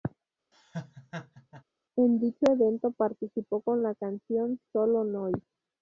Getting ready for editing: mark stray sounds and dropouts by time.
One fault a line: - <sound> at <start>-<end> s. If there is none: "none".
- laugh at 0.5-1.6 s